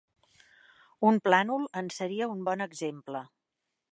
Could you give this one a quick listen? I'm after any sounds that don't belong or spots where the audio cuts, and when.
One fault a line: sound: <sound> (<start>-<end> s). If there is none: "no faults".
no faults